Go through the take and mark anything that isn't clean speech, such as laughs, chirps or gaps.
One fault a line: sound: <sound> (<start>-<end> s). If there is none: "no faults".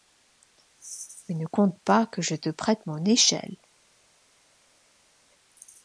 no faults